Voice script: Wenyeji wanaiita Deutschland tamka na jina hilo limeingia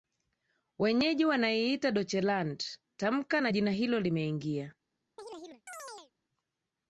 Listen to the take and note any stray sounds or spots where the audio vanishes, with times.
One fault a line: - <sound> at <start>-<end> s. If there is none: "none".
- chirp at 5.2-6.1 s